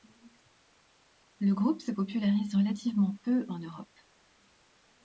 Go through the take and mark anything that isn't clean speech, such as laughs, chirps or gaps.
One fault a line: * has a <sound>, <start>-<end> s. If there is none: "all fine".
all fine